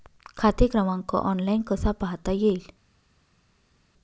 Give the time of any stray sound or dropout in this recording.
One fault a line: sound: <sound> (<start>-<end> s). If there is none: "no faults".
no faults